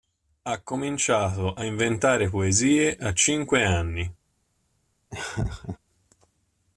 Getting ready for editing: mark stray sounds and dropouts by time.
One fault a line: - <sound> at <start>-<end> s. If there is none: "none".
- laugh at 5.1-5.8 s